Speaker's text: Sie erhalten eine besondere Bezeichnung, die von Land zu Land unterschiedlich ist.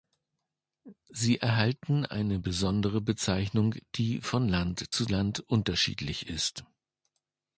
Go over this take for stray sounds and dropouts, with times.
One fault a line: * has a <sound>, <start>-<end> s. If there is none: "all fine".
all fine